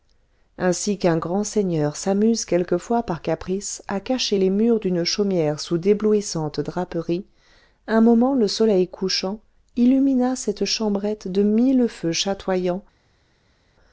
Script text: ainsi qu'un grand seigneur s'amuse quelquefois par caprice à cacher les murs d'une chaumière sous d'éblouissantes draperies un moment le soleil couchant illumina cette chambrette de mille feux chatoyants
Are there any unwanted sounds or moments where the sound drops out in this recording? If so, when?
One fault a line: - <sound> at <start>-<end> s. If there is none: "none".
none